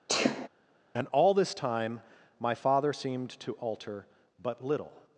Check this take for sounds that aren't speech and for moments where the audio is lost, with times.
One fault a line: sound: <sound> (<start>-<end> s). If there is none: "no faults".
sound: sneeze (0.1-0.5 s)